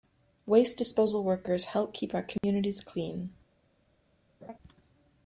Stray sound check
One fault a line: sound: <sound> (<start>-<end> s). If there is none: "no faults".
sound: dropout (2.4-2.4 s)
sound: laugh (4.4-4.6 s)